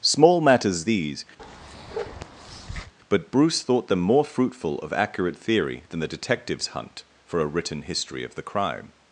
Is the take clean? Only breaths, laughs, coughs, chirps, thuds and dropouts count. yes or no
no